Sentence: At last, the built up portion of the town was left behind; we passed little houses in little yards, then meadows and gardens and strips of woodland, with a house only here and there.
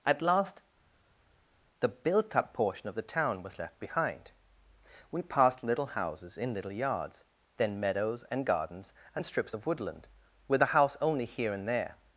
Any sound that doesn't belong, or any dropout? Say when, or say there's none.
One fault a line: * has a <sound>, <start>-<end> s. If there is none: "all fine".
all fine